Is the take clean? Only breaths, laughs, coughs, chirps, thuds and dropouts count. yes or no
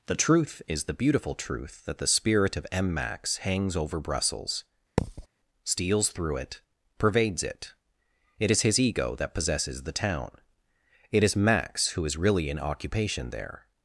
no